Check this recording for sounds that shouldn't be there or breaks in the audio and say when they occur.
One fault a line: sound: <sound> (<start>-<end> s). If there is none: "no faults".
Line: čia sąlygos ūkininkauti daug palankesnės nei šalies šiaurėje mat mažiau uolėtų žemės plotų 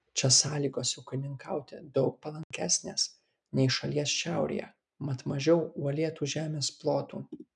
sound: dropout (2.4-2.5 s)